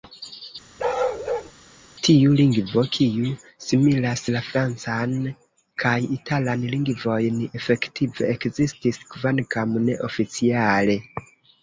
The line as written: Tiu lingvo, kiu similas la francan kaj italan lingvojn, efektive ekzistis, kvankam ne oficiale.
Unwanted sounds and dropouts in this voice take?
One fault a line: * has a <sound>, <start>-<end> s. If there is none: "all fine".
* has a bark, 0.8-1.5 s